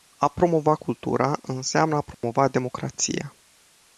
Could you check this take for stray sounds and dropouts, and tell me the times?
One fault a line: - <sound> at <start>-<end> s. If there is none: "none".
- dropout at 2.1-2.2 s